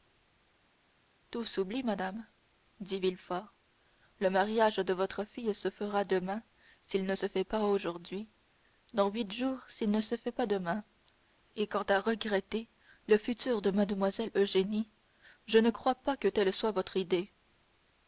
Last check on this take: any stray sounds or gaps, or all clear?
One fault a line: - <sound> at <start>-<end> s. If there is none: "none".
none